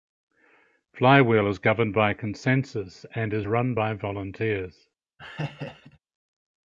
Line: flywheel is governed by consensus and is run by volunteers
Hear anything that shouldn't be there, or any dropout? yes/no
yes